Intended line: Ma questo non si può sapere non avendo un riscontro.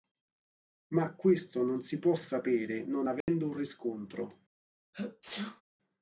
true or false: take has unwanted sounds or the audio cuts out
true